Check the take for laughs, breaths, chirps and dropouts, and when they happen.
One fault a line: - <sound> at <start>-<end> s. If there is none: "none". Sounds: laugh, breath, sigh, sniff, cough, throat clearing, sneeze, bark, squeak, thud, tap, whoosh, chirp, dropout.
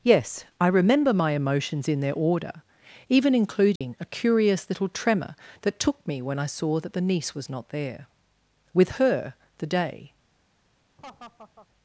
- dropout at 3.8-3.8 s
- laugh at 11.0-11.7 s